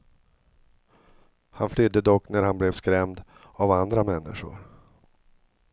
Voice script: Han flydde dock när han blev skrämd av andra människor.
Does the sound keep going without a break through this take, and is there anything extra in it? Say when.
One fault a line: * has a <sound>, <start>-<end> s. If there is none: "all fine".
all fine